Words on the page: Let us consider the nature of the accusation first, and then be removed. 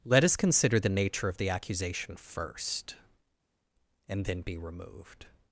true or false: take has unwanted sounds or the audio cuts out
false